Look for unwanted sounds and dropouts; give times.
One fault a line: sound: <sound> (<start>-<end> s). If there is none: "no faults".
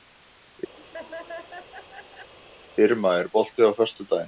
sound: laugh (0.8-2.3 s)